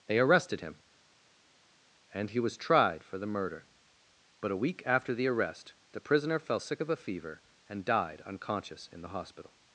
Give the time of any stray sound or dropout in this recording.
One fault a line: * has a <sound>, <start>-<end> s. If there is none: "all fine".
all fine